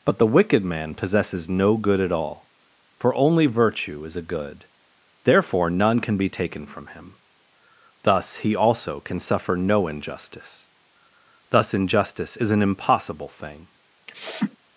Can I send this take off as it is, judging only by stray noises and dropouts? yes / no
no